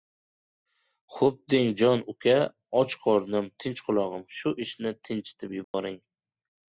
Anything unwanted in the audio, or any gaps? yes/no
yes